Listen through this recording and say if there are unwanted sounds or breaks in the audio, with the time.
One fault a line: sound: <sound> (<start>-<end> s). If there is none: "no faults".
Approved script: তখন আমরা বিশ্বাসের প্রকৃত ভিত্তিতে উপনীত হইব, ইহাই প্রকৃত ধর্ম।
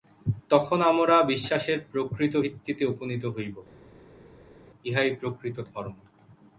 no faults